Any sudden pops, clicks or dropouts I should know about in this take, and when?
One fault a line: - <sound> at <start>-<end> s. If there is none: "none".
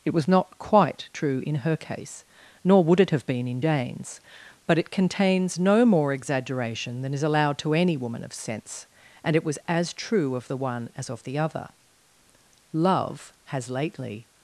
none